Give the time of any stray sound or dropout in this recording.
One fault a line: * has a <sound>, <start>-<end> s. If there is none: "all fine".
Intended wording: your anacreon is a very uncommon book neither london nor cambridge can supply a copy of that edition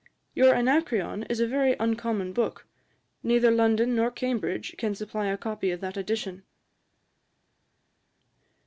all fine